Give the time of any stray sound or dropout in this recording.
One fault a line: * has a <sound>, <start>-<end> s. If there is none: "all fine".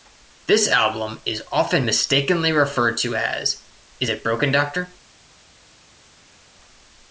all fine